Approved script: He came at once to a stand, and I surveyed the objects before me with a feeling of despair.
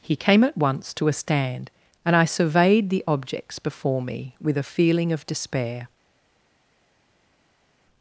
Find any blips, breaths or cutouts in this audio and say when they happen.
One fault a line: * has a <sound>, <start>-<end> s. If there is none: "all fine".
all fine